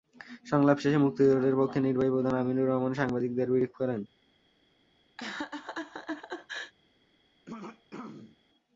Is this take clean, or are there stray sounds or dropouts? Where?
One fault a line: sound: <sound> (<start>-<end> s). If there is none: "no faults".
sound: laugh (5.2-6.7 s)
sound: throat clearing (7.5-8.4 s)